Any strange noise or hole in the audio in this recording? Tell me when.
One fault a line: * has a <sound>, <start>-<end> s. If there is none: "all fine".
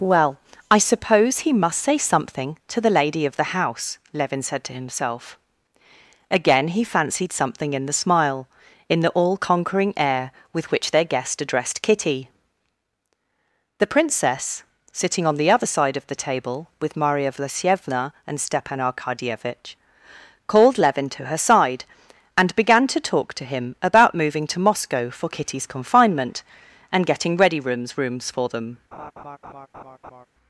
* has a laugh, 28.9-30.3 s